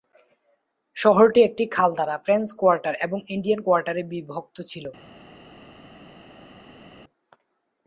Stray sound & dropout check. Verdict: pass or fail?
pass